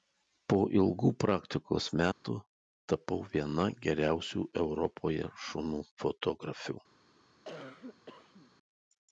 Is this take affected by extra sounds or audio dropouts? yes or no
yes